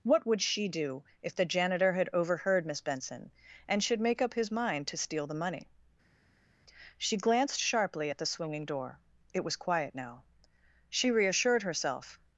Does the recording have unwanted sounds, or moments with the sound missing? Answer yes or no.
no